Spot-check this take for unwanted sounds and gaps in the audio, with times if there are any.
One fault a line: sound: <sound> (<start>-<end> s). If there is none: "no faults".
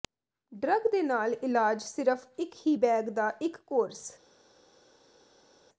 no faults